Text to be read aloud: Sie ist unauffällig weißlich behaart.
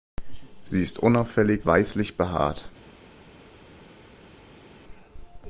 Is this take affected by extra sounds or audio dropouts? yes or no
no